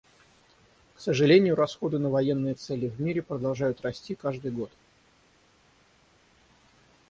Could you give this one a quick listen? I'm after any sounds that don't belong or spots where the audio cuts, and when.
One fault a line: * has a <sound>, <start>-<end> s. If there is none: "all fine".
all fine